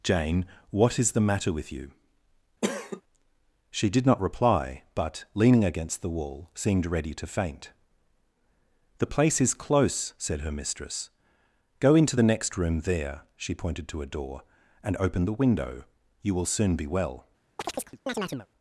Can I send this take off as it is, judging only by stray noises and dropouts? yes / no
no